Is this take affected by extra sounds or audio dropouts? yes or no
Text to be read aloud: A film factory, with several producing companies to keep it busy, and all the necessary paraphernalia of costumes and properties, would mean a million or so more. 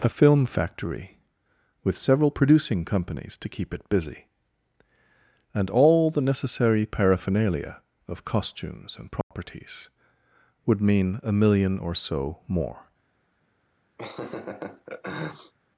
yes